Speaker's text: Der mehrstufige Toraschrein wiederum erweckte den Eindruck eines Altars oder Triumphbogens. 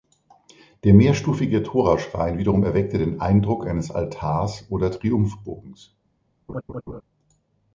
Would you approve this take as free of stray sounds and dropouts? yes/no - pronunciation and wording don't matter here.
no